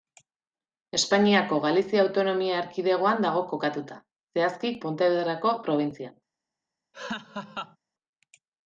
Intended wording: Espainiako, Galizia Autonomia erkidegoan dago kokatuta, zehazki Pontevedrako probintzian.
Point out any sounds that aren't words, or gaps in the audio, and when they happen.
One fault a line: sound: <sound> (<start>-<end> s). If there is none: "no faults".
sound: laugh (6.9-7.8 s)